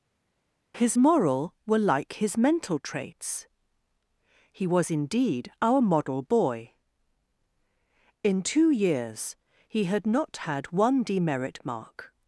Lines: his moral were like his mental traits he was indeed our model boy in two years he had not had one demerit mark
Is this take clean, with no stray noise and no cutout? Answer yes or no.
yes